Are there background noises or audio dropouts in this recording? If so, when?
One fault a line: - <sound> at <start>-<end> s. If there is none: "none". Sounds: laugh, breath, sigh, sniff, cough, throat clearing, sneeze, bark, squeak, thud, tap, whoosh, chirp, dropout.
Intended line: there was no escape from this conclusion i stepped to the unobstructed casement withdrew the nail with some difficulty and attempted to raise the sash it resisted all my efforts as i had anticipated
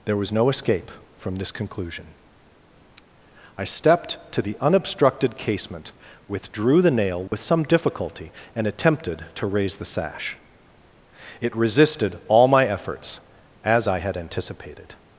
- dropout at 7.3-7.3 s